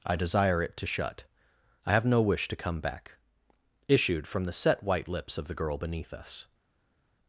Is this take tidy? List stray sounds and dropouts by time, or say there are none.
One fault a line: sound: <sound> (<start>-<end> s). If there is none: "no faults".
no faults